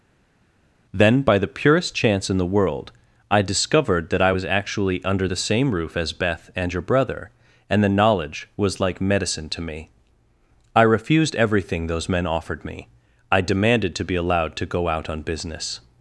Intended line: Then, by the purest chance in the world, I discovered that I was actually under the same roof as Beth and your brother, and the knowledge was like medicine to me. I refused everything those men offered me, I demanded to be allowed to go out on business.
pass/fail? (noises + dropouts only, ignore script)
pass